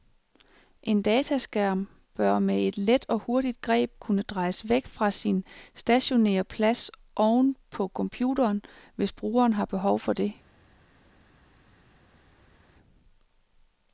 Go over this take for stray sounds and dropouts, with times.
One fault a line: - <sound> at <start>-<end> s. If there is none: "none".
none